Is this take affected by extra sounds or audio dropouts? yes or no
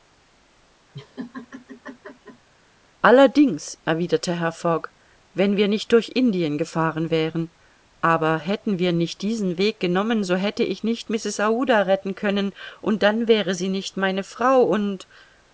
yes